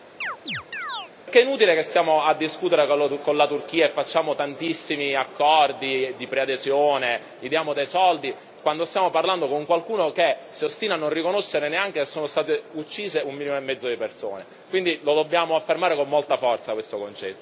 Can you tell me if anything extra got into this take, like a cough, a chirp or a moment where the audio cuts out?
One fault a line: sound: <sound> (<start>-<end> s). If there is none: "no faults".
sound: chirp (0.2-1.1 s)